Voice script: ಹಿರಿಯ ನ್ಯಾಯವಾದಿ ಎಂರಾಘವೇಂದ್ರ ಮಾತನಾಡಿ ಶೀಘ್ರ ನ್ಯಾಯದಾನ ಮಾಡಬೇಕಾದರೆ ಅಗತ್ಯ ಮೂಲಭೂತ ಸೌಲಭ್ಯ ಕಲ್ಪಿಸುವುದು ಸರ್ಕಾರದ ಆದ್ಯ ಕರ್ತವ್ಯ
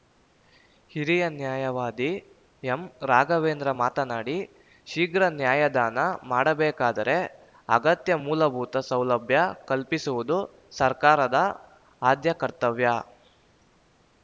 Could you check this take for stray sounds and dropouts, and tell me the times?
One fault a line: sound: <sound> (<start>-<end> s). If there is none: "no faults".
no faults